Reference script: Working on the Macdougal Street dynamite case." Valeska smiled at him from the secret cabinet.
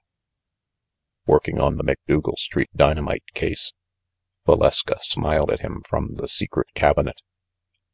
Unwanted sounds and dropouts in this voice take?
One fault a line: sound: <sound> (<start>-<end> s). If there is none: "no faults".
no faults